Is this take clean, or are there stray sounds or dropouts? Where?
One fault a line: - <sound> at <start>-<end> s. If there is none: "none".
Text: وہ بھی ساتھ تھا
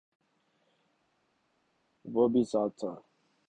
none